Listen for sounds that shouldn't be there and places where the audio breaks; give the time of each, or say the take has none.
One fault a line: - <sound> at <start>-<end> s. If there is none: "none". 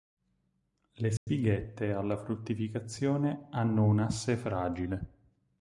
- dropout at 1.2-1.3 s